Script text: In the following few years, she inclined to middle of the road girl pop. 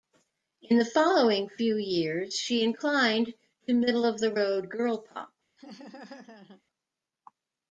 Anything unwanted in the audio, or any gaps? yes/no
yes